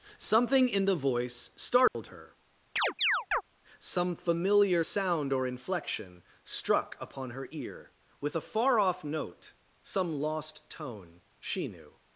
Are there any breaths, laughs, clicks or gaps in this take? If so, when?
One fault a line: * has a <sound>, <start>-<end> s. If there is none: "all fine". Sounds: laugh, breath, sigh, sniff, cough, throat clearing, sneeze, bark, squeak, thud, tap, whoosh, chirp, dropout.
* has a dropout, 1.9-1.9 s
* has a chirp, 2.8-3.4 s